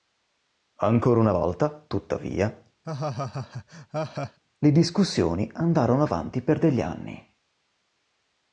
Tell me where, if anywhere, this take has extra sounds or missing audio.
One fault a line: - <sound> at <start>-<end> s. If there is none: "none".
- laugh at 2.8-4.4 s